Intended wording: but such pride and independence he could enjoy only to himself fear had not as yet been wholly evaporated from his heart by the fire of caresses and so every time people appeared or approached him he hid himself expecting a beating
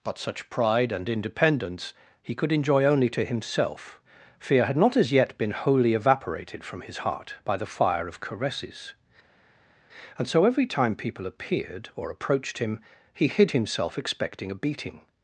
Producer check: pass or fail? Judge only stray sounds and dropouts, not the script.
pass